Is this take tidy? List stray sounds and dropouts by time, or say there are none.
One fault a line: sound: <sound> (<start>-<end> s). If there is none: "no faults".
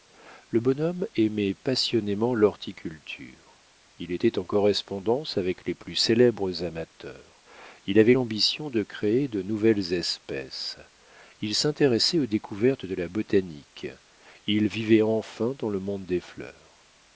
no faults